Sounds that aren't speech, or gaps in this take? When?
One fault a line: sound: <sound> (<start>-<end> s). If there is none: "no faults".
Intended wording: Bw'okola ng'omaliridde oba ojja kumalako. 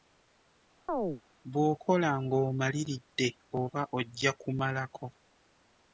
sound: chirp (0.9-1.2 s)